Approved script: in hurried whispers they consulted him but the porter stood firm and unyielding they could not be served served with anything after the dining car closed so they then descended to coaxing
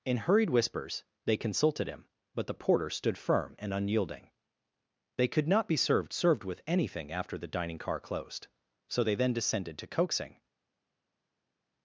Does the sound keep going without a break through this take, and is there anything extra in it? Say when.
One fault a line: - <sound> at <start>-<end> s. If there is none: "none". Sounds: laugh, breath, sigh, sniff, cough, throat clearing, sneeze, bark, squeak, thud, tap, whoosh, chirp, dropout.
none